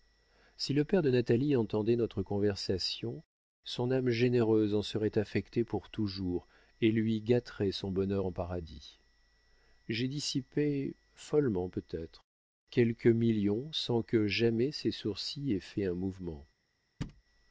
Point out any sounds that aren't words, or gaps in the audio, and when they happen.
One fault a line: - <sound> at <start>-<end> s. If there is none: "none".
- thud at 17.0-17.2 s